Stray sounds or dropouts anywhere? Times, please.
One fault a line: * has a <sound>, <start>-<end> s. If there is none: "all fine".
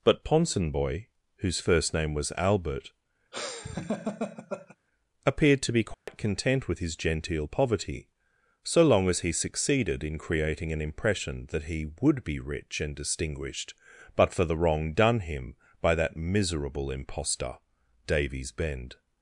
* has a laugh, 3.3-4.8 s
* has a dropout, 5.9-6.1 s